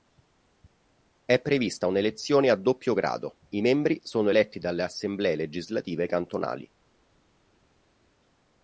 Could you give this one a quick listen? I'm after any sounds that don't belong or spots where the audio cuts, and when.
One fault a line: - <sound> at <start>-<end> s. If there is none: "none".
none